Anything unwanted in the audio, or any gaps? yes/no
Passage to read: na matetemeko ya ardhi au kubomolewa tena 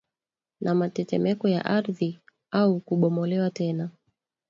no